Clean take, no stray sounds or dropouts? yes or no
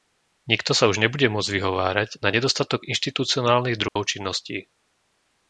no